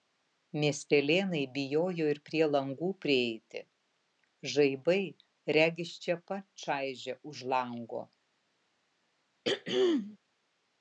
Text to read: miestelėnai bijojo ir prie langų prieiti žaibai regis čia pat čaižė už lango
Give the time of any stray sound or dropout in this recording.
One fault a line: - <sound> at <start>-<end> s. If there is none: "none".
- throat clearing at 9.4-10.2 s